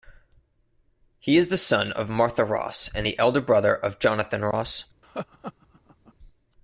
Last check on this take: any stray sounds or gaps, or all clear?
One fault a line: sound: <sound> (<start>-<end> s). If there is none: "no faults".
sound: laugh (5.0-6.1 s)